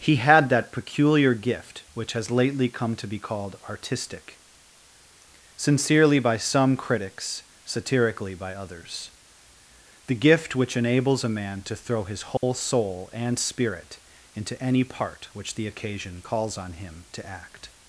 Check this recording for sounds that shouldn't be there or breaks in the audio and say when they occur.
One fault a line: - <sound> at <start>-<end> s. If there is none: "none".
- dropout at 12.4-12.4 s